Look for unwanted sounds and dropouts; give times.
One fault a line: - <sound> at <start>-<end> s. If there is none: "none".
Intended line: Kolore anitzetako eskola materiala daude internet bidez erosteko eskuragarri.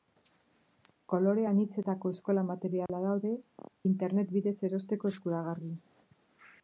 - dropout at 2.9-2.9 s